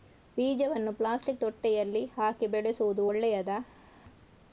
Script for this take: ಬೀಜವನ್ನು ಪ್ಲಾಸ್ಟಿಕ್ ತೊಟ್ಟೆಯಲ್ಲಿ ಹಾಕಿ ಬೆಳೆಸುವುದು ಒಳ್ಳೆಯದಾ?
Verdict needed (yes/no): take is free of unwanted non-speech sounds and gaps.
yes